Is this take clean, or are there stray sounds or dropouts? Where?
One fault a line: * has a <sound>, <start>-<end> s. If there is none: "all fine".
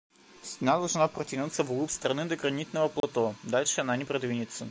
* has a dropout, 3.0-3.0 s